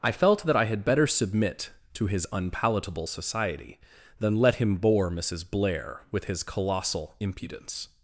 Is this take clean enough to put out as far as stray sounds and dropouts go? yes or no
yes